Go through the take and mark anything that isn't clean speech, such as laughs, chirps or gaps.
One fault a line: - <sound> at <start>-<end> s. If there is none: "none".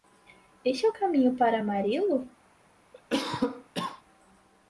- cough at 2.9-4.0 s